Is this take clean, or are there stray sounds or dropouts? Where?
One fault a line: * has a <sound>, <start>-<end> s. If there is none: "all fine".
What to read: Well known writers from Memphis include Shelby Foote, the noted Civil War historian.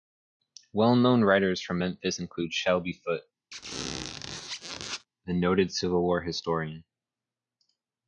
* has a squeak, 3.5-5.1 s